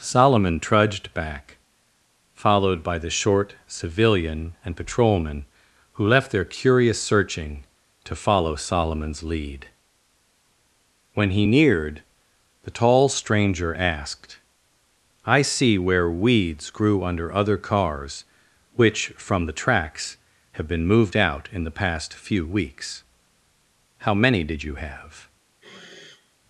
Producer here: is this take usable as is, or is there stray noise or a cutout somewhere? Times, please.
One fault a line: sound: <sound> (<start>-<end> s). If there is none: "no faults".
sound: sniff (25.6-26.4 s)